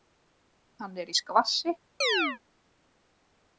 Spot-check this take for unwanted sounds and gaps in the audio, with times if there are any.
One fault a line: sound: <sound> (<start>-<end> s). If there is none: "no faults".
sound: chirp (2.0-2.4 s)